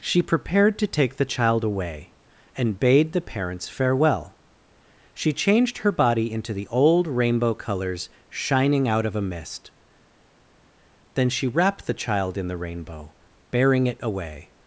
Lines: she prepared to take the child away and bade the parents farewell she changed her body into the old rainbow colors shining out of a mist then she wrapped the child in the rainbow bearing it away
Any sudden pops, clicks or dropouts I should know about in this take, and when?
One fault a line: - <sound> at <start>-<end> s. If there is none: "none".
none